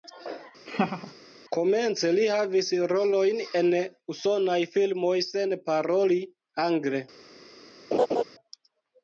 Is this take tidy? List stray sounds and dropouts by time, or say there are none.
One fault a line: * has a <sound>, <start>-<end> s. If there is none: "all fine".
* has a laugh, 0.7-1.1 s
* has a laugh, 7.9-8.2 s